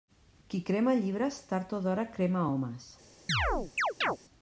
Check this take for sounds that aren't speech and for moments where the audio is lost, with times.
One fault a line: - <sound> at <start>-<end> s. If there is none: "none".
- chirp at 3.3-4.2 s